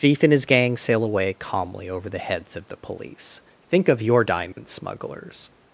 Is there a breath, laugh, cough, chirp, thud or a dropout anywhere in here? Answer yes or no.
yes